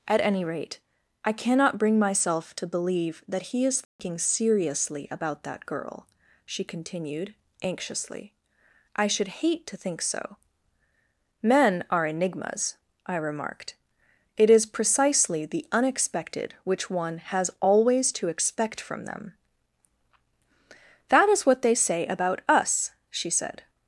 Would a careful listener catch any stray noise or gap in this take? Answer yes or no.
yes